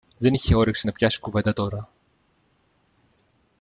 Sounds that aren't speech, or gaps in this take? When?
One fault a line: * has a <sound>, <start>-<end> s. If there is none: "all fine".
all fine